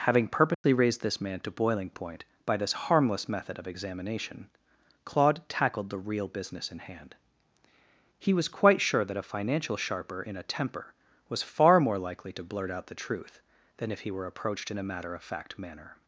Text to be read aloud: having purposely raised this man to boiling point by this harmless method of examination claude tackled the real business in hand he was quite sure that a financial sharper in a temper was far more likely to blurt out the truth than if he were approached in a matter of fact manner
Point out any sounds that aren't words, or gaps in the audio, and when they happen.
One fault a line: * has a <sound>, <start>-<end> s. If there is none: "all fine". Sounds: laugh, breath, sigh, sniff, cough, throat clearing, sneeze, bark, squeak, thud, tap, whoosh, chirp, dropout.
* has a dropout, 0.5-0.6 s